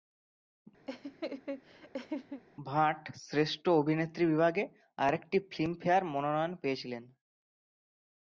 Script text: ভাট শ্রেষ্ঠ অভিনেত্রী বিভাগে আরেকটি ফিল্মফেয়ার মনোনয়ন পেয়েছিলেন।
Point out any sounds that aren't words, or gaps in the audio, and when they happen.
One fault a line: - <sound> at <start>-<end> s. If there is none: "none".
- laugh at 0.9-2.4 s